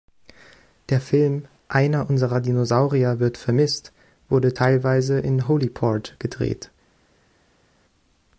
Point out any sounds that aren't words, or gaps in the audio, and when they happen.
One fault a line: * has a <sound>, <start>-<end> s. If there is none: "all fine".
all fine